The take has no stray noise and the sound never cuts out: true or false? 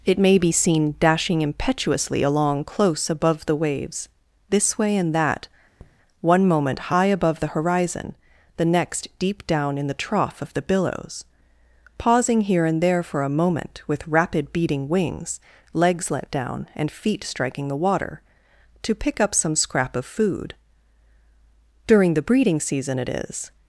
false